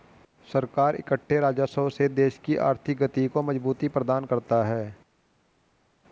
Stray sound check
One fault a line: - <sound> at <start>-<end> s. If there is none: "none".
none